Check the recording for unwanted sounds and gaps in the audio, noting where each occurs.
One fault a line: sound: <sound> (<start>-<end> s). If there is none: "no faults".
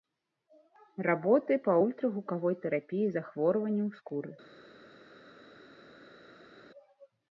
no faults